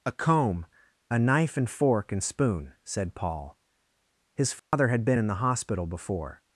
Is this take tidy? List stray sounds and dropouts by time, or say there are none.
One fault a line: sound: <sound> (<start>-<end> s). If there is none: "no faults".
sound: dropout (4.6-4.7 s)